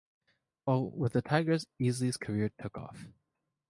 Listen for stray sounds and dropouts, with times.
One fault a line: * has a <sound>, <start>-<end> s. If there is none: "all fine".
all fine